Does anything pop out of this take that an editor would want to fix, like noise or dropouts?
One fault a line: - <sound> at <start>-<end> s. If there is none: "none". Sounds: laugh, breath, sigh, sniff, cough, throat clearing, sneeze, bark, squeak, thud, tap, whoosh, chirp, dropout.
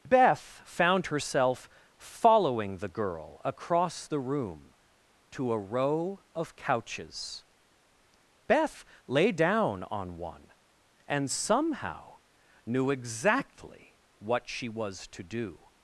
none